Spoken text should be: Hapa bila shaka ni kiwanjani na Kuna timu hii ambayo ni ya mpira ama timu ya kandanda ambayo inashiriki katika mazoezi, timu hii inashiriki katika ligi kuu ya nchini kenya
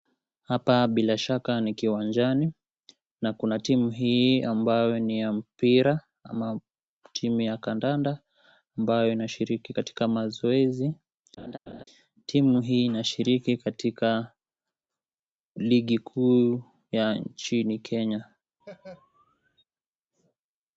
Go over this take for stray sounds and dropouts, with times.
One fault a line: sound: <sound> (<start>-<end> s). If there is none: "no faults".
sound: laugh (11.4-11.8 s)
sound: laugh (18.6-19.6 s)